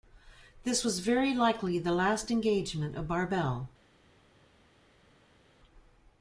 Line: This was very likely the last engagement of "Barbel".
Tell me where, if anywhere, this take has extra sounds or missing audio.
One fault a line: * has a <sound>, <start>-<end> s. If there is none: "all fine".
all fine